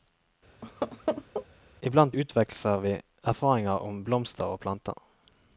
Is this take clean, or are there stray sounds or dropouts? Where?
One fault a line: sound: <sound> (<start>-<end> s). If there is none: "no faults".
sound: laugh (0.6-1.5 s)